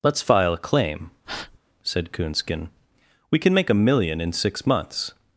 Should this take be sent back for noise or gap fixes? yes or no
yes